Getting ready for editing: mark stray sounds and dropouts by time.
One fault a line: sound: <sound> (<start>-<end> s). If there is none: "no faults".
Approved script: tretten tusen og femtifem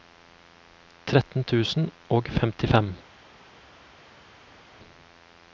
no faults